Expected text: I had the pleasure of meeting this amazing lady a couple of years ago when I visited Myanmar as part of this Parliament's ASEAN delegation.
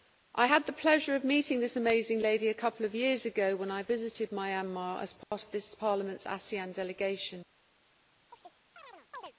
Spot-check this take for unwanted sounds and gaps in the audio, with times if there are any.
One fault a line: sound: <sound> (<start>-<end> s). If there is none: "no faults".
sound: dropout (5.2-5.3 s)
sound: chirp (8.3-9.3 s)